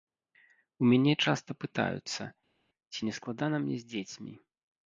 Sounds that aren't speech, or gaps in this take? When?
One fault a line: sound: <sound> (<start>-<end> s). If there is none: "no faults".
no faults